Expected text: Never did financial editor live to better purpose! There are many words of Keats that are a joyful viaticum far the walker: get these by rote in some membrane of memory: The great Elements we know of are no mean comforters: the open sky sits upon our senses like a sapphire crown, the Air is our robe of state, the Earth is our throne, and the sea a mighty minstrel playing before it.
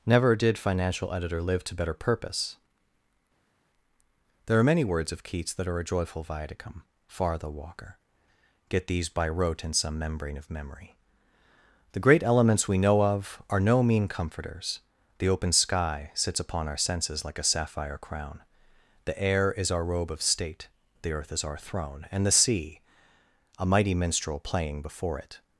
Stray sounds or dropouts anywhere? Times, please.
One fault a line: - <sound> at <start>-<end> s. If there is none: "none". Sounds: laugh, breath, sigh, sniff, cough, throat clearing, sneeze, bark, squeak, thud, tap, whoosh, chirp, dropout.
none